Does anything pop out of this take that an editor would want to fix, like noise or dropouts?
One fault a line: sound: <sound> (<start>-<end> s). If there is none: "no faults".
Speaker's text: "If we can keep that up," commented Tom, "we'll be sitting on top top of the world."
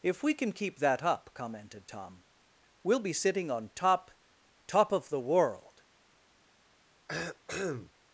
sound: cough (7.1-7.9 s)